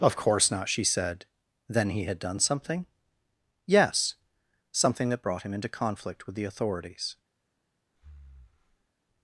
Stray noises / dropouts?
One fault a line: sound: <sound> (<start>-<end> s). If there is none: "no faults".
sound: breath (7.9-8.9 s)